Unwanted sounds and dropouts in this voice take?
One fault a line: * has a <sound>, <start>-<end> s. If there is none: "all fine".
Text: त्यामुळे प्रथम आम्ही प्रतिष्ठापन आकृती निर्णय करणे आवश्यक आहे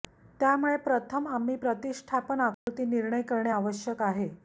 * has a dropout, 2.5-2.7 s